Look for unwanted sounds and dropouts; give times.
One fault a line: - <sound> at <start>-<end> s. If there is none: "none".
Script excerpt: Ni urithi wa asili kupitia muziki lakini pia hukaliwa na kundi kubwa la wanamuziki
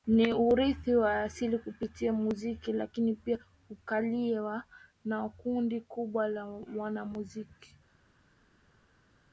none